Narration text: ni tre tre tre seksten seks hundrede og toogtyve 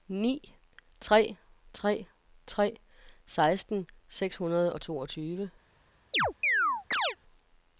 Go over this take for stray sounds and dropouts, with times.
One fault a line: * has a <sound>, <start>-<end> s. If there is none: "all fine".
* has a chirp, 6.1-7.2 s